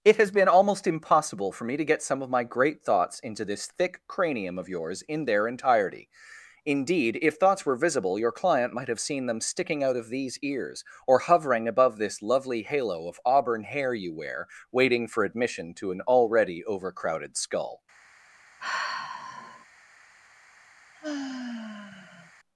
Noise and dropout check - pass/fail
fail